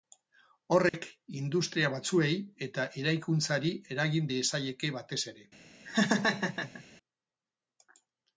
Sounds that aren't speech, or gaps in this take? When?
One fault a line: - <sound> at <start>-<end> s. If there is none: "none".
- dropout at 0.9-0.9 s
- laugh at 5.8-6.8 s